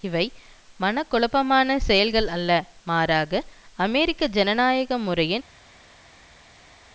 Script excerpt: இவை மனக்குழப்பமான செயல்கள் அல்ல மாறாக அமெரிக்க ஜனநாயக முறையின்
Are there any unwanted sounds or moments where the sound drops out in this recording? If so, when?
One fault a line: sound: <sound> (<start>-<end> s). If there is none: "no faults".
no faults